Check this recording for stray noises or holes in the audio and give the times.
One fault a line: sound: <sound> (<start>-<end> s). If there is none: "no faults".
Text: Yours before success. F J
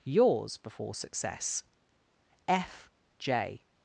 no faults